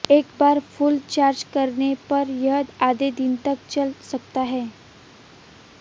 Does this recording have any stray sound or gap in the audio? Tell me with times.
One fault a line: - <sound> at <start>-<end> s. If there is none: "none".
none